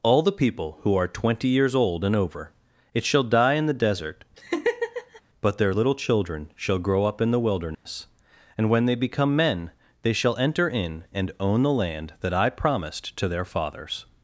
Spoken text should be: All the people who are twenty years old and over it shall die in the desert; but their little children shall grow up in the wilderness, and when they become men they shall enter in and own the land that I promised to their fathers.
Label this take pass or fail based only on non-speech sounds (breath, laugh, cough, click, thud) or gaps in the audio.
fail